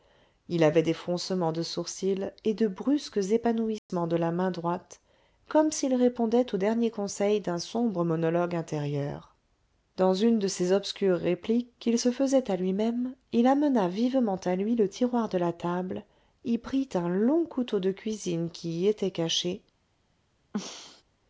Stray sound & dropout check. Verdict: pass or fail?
fail